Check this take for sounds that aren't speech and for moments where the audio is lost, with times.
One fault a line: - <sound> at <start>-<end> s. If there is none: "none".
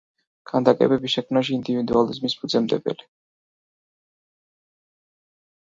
none